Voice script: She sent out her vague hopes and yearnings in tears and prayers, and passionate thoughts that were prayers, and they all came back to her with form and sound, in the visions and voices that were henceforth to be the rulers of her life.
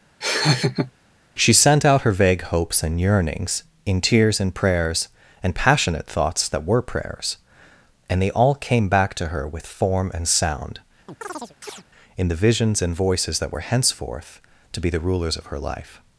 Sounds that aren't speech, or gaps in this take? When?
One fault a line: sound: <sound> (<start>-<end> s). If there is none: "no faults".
sound: laugh (0.2-0.9 s)
sound: chirp (11.1-11.8 s)